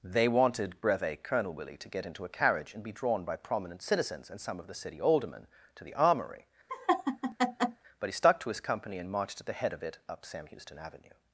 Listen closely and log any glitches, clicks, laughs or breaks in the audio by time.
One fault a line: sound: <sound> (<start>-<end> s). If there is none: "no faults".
sound: laugh (6.7-7.8 s)